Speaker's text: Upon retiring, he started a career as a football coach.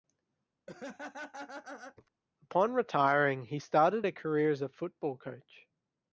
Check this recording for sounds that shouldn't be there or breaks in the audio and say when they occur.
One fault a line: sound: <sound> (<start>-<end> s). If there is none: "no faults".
sound: laugh (0.7-2.1 s)